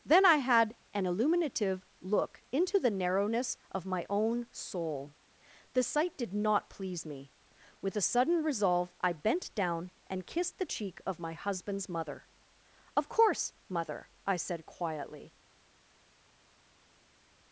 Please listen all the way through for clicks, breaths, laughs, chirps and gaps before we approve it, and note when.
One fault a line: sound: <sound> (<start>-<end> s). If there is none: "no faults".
no faults